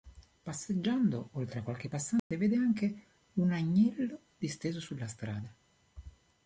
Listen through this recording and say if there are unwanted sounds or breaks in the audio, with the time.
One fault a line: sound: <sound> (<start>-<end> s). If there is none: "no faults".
sound: dropout (2.2-2.3 s)